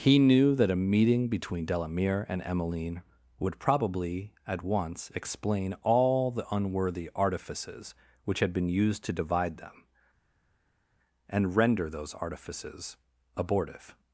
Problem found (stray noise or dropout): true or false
false